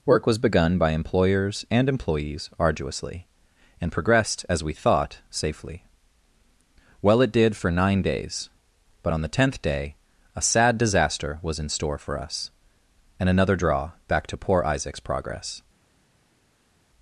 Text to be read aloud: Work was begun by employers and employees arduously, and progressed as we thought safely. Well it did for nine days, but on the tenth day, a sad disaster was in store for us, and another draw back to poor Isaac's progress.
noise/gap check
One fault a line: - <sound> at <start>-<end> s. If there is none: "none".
none